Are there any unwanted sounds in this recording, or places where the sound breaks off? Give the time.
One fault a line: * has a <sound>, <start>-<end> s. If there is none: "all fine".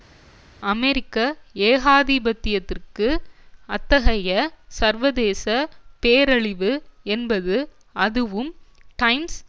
all fine